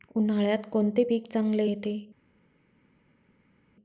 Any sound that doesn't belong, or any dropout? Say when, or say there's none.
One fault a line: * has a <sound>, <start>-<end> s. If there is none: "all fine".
all fine